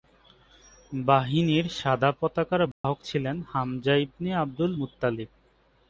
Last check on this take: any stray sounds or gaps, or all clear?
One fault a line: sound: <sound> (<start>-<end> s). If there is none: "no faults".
sound: dropout (2.7-2.8 s)